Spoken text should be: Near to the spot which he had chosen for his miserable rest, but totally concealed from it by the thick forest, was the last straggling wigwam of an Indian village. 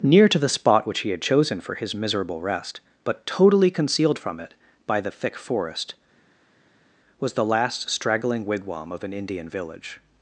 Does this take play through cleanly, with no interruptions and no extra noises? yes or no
yes